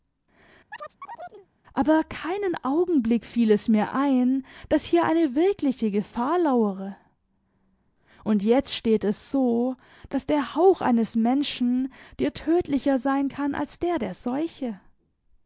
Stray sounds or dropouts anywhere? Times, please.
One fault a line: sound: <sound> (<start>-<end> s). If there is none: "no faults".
sound: chirp (0.7-1.5 s)